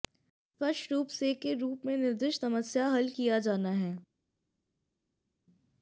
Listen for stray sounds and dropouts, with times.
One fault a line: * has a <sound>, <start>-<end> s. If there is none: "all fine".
all fine